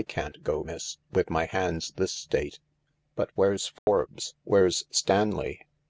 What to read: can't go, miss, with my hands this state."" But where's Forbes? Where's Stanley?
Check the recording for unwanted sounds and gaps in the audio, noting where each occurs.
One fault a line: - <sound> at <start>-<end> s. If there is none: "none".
- dropout at 3.8-3.9 s